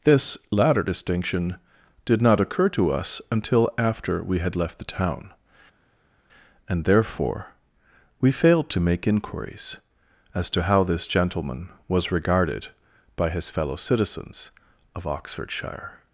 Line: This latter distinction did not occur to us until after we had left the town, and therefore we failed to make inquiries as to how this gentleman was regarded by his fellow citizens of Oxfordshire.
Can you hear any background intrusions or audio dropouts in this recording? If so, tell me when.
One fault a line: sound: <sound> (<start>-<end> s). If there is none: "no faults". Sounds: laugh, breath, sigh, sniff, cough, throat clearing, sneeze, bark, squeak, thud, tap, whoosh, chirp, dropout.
no faults